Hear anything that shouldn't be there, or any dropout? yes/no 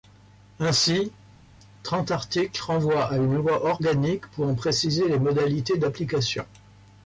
no